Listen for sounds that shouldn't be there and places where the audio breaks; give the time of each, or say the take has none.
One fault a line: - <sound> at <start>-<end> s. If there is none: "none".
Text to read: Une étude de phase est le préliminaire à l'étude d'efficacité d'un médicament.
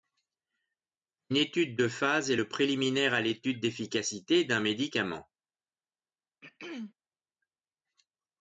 - throat clearing at 6.4-6.9 s